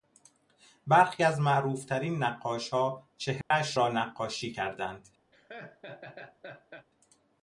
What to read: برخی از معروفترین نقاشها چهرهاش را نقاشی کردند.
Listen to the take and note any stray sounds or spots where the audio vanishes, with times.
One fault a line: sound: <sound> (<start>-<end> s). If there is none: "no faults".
sound: dropout (3.4-3.5 s)
sound: laugh (5.3-6.9 s)